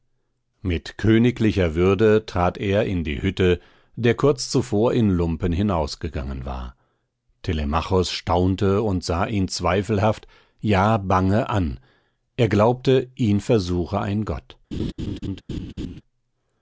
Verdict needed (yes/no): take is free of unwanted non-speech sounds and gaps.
no